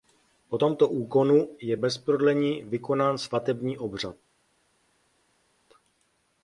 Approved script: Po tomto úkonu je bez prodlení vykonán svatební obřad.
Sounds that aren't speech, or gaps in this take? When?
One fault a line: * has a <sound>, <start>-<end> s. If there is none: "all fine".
all fine